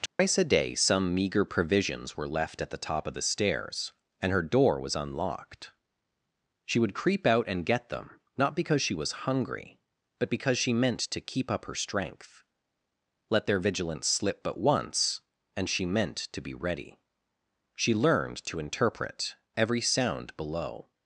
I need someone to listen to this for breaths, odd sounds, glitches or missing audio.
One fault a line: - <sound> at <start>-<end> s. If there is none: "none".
- dropout at 0.1-0.2 s